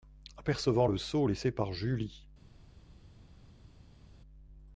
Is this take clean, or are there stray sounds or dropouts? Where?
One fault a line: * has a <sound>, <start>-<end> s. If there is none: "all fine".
all fine